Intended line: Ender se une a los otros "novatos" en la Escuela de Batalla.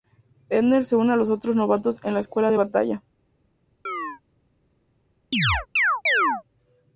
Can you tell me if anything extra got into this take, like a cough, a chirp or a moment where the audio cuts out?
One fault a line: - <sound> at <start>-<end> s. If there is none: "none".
- chirp at 3.9-4.2 s
- chirp at 5.3-6.4 s